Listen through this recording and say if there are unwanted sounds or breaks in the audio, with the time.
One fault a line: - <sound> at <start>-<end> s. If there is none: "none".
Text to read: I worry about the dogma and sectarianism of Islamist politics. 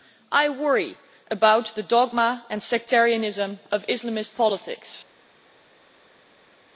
none